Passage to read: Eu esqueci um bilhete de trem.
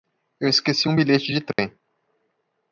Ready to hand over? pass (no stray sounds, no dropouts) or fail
fail